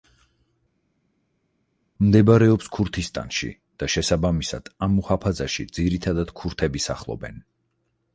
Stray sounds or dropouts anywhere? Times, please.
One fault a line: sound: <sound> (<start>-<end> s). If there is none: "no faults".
no faults